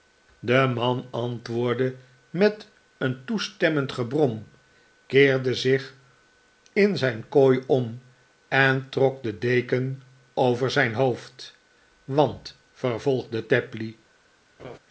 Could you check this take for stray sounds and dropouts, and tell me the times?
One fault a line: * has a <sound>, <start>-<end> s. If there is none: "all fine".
* has a laugh, 14.6-14.8 s